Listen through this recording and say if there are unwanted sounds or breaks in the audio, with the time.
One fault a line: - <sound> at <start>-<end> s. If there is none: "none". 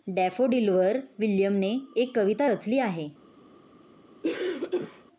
- cough at 4.2-5.0 s